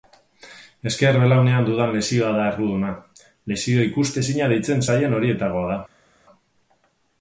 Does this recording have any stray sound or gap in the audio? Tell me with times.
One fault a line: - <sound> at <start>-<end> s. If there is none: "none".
none